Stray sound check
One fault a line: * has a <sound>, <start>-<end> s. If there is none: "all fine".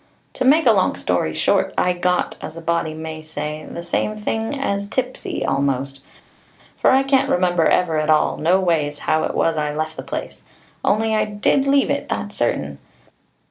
all fine